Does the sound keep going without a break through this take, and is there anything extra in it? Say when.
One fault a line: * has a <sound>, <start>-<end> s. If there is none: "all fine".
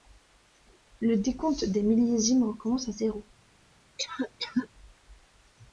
* has a cough, 4.0-4.7 s